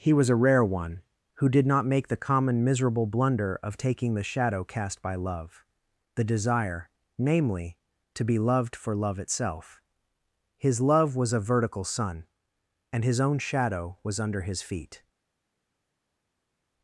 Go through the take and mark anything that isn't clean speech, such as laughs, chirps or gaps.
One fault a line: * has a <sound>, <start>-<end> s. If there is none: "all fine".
all fine